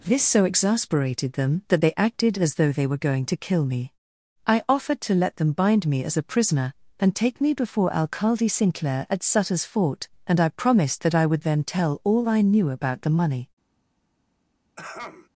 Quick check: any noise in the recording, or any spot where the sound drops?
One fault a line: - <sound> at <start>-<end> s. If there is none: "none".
- throat clearing at 14.8-15.3 s